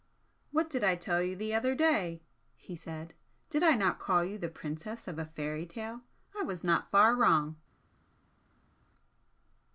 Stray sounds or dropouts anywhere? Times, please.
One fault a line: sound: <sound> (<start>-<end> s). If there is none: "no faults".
no faults